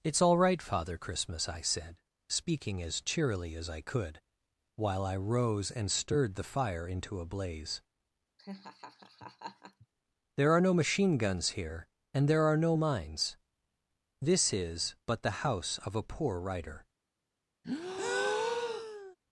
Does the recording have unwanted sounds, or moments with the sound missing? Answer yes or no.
yes